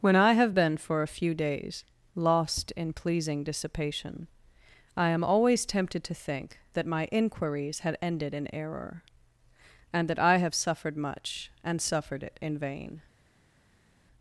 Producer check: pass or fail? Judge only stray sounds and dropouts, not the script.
pass